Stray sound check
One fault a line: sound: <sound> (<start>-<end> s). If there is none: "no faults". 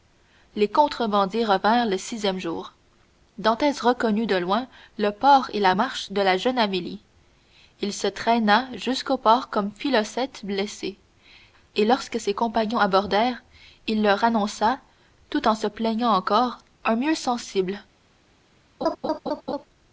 sound: laugh (18.8-19.6 s)